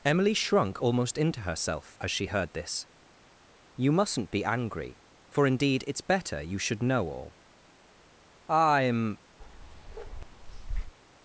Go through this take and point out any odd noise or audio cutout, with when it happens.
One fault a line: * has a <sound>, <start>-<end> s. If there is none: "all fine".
* has a bark, 9.4-10.9 s